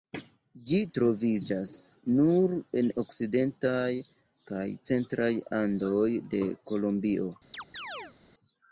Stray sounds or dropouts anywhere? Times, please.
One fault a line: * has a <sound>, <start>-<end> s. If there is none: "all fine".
* has a chirp, 7.5-8.2 s